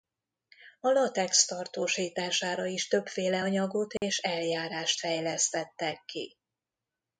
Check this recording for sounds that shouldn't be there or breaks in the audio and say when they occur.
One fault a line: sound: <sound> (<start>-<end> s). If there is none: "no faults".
sound: dropout (4.0-4.0 s)